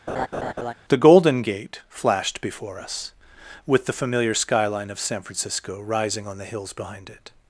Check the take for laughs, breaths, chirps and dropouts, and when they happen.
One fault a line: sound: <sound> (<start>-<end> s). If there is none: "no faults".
sound: laugh (0.1-0.7 s)